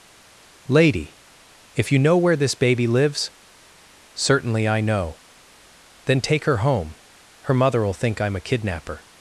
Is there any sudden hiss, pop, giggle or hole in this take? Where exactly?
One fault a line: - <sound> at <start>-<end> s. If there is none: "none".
none